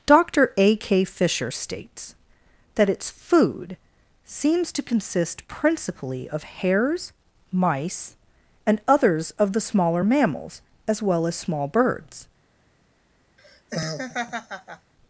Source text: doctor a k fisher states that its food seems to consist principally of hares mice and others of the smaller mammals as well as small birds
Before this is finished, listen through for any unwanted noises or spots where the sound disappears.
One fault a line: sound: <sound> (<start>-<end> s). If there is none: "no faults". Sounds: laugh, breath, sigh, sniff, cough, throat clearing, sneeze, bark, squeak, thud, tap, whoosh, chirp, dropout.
sound: laugh (13.4-14.9 s)